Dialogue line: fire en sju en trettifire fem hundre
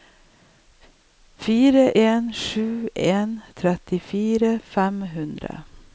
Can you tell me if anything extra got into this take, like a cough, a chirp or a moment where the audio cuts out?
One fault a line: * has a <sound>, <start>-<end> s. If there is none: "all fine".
all fine